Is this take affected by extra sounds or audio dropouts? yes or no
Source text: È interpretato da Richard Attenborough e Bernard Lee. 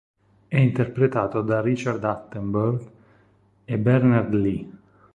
no